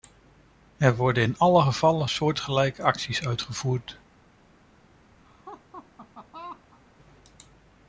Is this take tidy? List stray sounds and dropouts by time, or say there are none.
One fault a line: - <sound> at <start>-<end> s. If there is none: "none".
- laugh at 5.2-6.8 s